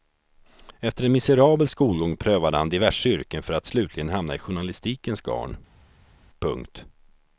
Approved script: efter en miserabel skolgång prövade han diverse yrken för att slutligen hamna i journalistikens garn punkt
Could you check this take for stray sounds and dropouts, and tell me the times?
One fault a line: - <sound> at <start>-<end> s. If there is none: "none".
none